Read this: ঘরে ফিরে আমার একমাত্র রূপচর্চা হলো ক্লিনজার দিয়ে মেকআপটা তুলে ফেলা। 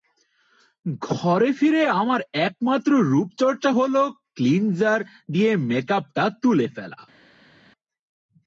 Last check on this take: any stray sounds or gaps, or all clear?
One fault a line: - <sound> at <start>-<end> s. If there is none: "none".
none